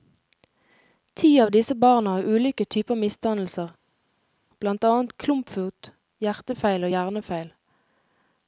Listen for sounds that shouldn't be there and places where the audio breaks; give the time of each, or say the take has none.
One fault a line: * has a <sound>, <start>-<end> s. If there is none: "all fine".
all fine